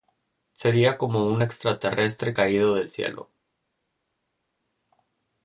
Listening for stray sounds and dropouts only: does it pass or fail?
pass